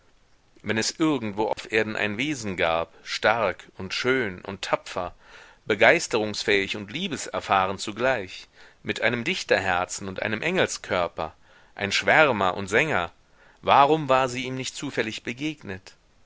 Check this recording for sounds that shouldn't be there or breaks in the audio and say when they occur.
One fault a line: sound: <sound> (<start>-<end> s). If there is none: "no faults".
sound: dropout (1.5-1.6 s)